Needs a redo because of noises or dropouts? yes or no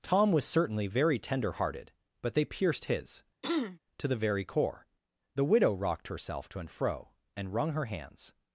yes